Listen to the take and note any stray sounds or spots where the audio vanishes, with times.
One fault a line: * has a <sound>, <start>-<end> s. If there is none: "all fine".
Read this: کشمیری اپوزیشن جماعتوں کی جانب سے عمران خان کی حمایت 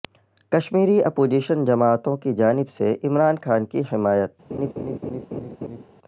* has a laugh, 4.5-5.8 s